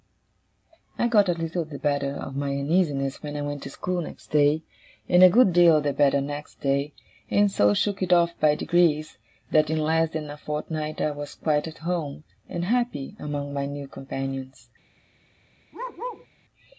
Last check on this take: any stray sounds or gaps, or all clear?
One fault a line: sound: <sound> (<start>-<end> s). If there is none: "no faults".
sound: bark (15.7-16.3 s)